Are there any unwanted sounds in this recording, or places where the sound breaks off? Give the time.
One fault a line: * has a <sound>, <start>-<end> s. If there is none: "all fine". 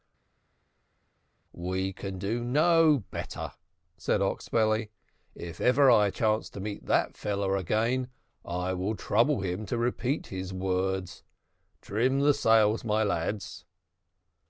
all fine